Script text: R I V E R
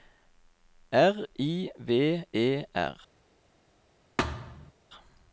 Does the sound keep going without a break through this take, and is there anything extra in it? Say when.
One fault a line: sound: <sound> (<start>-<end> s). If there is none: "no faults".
sound: thud (4.2-4.7 s)